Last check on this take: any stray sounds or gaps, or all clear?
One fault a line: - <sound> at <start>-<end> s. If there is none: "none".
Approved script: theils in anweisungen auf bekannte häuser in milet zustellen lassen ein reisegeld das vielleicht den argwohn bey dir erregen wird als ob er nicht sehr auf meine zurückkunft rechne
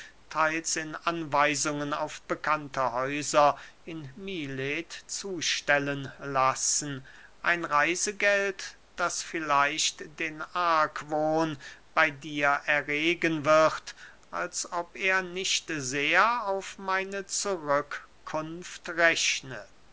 none